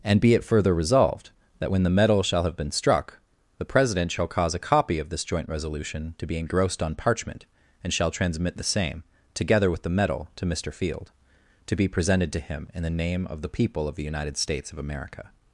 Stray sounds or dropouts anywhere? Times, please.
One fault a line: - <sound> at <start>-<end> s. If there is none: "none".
none